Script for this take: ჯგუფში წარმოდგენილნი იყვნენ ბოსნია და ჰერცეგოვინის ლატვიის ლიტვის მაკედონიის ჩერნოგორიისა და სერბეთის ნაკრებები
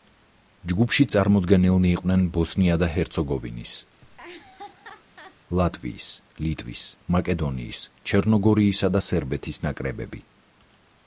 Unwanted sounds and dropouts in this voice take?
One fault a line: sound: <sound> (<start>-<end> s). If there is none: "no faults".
sound: laugh (4.0-5.4 s)